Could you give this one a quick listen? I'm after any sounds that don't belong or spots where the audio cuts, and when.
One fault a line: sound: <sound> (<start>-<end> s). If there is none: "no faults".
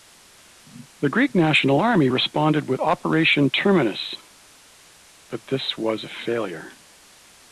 no faults